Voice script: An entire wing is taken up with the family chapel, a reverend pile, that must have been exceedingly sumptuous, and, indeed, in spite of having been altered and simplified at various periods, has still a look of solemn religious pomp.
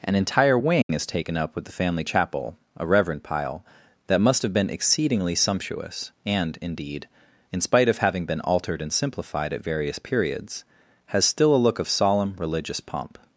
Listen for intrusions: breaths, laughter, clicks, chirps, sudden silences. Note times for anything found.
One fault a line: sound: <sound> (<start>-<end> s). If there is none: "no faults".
sound: dropout (0.8-0.9 s)